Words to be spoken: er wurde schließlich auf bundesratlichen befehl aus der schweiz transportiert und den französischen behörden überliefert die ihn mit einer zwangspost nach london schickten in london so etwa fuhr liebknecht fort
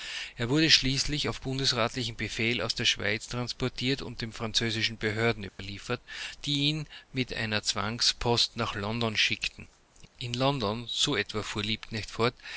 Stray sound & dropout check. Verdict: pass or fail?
fail